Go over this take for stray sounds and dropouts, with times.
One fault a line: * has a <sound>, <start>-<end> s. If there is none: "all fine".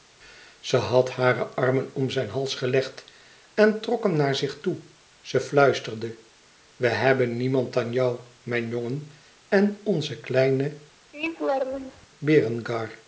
* has a laugh, 11.1-12.1 s